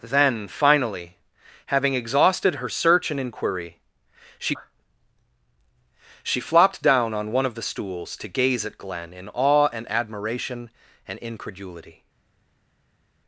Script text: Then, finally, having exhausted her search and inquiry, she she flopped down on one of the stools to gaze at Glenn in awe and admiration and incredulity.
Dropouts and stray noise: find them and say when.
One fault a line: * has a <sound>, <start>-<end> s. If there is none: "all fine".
all fine